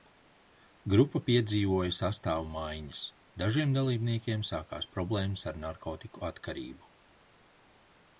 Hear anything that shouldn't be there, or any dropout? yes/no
no